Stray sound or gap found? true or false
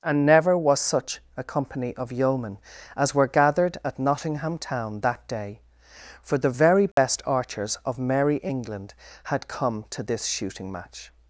true